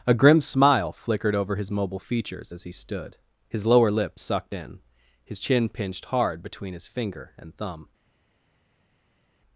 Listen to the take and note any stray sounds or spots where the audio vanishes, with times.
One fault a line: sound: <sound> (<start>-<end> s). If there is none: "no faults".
no faults